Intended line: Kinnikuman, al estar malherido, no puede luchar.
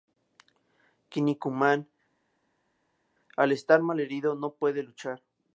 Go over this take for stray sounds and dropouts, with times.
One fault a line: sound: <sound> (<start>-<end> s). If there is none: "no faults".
no faults